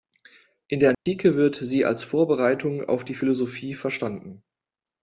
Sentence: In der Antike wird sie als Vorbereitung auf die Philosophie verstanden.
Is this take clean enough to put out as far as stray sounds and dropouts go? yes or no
no